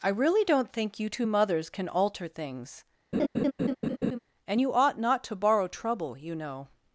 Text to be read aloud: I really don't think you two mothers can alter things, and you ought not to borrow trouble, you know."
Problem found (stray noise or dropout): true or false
true